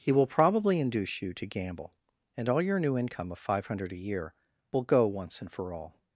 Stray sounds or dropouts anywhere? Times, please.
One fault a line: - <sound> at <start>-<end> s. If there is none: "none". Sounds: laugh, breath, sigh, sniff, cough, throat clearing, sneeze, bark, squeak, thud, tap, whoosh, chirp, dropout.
none